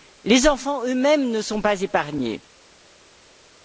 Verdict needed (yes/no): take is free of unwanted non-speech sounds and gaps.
yes